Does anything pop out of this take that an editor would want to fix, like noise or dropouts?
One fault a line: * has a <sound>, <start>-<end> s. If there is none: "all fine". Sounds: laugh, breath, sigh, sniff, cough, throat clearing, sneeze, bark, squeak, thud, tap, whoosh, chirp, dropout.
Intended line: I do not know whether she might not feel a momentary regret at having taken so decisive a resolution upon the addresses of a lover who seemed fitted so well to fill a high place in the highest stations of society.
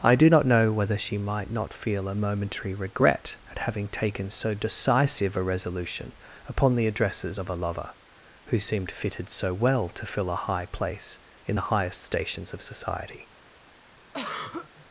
* has a throat clearing, 14.1-14.9 s